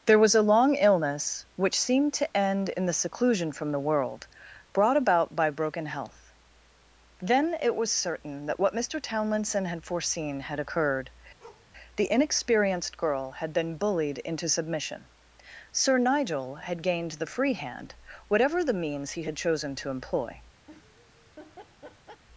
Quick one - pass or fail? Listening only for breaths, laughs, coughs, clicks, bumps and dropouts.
fail